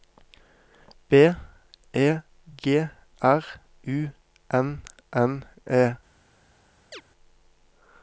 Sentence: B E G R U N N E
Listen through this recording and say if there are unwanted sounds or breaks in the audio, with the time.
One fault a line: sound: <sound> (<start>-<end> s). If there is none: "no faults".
sound: chirp (6.9-7.0 s)